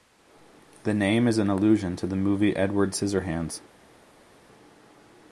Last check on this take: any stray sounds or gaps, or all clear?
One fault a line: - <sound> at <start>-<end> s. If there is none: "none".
none